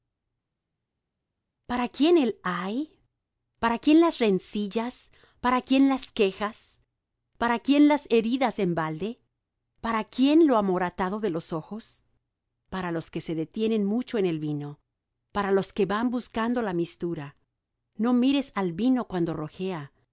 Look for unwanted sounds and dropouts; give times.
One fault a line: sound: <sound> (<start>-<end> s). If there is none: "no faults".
no faults